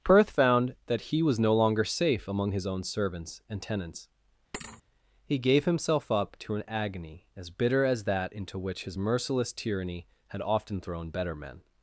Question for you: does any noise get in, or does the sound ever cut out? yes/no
yes